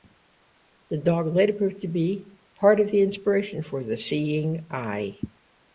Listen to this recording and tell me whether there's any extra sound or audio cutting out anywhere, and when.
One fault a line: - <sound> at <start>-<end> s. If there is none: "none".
none